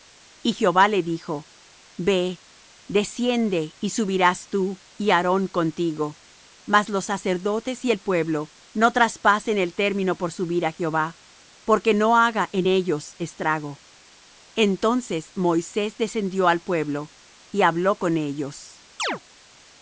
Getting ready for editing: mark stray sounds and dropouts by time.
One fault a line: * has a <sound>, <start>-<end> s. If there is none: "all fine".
* has a chirp, 19.0-19.2 s